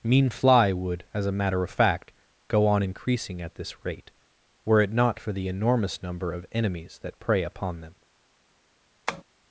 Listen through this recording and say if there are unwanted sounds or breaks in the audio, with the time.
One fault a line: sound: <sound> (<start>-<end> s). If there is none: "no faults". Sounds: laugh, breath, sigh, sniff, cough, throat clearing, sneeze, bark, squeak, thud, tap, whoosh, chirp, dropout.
sound: tap (9.1-9.2 s)